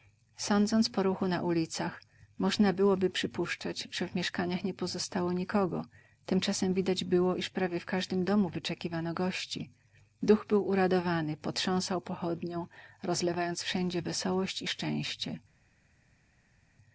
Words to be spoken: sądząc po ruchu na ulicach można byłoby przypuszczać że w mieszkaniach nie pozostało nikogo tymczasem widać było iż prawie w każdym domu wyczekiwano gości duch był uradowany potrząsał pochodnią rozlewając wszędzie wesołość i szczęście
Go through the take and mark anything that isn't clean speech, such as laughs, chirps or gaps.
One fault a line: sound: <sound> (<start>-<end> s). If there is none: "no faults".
no faults